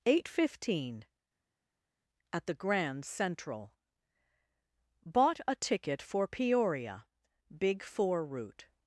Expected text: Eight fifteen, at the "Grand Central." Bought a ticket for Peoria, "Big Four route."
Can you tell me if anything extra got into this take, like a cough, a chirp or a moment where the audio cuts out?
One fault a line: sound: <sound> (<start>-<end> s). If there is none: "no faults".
no faults